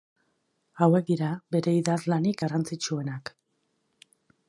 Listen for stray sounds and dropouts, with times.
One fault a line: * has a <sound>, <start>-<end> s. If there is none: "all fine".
all fine